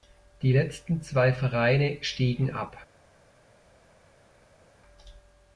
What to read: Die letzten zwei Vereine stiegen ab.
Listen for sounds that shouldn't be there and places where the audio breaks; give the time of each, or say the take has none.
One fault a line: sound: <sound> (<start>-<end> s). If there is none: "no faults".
no faults